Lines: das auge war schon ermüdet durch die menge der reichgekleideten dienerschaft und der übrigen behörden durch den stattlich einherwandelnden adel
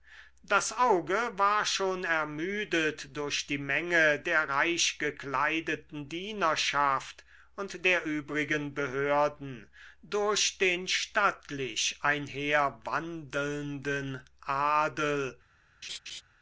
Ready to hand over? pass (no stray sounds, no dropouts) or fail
fail